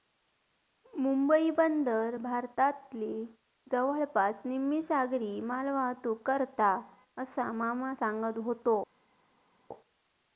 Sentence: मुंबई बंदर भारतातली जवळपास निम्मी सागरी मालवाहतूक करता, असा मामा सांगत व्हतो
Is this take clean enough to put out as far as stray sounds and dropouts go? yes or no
yes